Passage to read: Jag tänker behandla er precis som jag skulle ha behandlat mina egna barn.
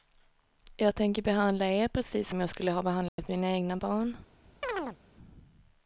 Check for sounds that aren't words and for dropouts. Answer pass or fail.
fail